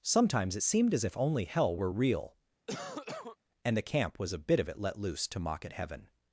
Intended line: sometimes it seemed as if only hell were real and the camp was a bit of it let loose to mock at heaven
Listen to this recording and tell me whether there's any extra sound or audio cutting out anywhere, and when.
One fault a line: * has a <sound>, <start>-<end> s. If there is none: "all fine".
* has a cough, 2.7-3.4 s